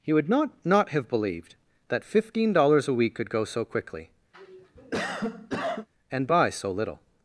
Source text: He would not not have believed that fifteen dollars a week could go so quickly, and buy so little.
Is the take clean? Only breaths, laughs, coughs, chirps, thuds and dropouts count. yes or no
no